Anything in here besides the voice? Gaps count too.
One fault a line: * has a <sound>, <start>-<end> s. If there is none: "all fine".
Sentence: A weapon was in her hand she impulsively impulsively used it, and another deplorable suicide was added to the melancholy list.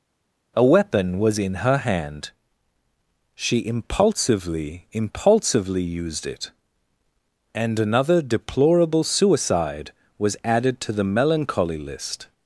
all fine